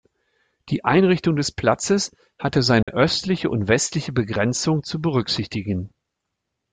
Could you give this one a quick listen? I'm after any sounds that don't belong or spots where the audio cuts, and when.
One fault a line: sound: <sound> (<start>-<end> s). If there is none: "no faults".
sound: dropout (2.8-2.9 s)